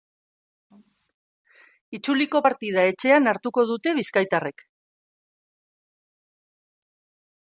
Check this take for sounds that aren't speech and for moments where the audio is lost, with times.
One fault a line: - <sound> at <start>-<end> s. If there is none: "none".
none